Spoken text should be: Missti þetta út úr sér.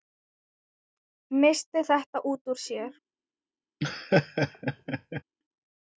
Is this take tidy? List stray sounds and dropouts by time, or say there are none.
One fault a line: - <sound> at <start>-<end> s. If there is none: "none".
- laugh at 3.8-5.2 s